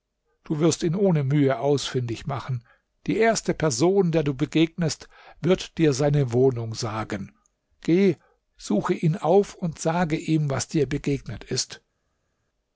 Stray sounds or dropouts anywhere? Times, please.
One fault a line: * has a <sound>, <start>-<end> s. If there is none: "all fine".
all fine